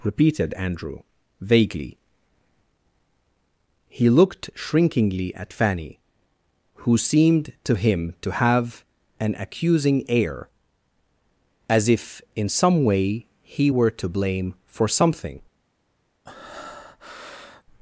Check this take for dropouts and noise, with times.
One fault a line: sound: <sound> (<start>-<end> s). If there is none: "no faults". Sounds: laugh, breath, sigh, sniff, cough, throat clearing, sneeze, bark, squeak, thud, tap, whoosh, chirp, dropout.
sound: breath (16.2-17.6 s)